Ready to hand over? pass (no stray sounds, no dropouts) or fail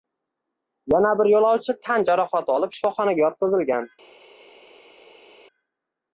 pass